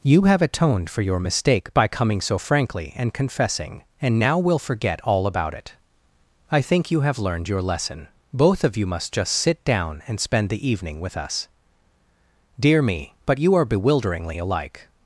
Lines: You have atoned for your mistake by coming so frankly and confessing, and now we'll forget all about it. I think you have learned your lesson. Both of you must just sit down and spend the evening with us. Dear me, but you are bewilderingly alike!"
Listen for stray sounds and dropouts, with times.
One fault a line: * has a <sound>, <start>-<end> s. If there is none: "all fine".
all fine